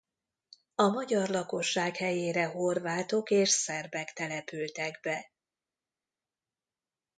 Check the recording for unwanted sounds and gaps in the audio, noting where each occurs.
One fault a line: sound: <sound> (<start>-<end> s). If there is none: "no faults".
no faults